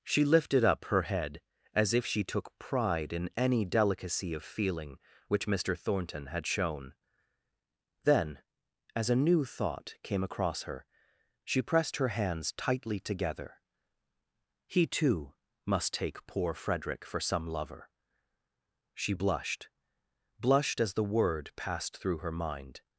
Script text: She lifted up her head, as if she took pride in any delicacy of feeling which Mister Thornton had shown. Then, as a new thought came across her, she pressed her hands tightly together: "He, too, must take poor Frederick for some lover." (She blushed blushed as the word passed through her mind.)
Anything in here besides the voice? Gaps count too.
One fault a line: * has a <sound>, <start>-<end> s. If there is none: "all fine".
all fine